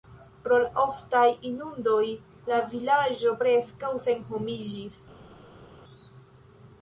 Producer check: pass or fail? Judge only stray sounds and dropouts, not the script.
pass